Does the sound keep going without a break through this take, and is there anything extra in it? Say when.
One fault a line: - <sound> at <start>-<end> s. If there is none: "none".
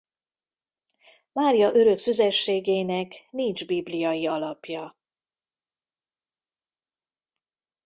none